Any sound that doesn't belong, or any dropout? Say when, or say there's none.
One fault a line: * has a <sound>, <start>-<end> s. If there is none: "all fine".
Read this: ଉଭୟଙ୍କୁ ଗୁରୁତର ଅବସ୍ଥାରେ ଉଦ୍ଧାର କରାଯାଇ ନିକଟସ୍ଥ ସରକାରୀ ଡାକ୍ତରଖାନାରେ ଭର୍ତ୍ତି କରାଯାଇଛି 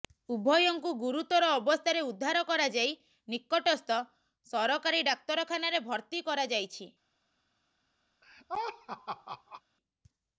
* has a laugh, 8.2-9.6 s